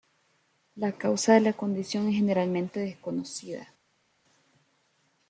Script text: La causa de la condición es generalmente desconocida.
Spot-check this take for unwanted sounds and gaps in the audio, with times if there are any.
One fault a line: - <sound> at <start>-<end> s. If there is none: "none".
none